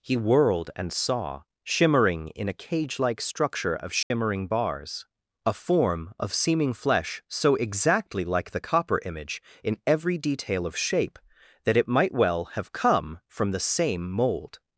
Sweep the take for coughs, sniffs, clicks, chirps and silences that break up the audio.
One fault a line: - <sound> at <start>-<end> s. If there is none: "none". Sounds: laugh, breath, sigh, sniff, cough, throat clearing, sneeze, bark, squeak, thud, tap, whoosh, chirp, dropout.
- dropout at 4.0-4.1 s